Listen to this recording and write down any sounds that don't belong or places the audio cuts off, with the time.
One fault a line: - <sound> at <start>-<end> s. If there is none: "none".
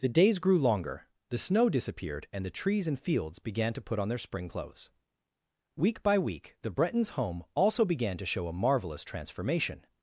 none